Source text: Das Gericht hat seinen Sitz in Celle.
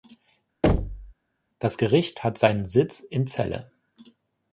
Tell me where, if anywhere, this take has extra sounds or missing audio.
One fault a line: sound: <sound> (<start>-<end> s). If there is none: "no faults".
sound: thud (0.6-1.1 s)